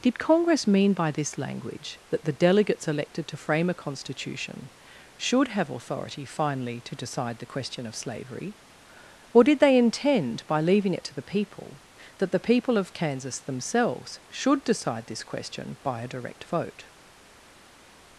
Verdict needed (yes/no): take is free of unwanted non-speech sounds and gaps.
yes